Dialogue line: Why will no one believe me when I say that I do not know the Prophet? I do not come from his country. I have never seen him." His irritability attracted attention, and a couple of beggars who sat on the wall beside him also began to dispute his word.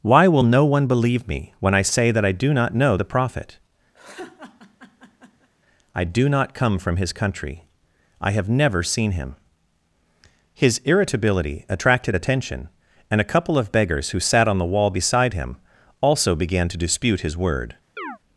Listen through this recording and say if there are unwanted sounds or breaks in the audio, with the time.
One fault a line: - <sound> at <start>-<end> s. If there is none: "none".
- laugh at 3.9-5.5 s
- chirp at 18.0-18.2 s